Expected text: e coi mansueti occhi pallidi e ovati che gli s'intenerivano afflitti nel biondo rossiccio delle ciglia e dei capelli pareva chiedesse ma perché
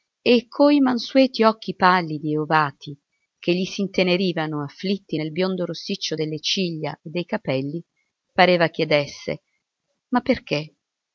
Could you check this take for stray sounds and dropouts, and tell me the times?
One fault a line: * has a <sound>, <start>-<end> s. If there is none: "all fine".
all fine